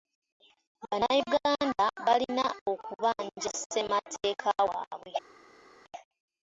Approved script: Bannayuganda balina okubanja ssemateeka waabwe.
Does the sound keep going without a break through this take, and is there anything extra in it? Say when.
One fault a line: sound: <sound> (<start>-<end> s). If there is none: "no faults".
no faults